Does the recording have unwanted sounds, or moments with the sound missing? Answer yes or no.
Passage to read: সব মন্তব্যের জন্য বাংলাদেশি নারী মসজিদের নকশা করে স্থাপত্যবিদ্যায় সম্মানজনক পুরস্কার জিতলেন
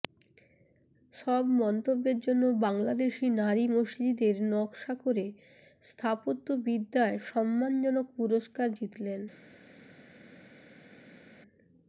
no